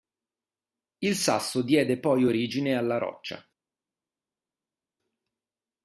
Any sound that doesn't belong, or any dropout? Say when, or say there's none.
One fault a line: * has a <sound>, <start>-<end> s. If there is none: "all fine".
all fine